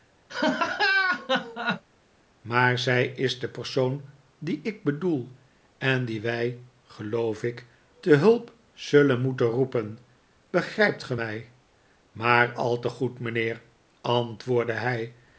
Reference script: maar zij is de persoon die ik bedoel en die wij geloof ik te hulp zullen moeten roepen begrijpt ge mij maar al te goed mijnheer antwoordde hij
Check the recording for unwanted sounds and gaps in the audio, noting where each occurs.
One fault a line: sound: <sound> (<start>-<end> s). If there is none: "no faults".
sound: laugh (0.3-1.8 s)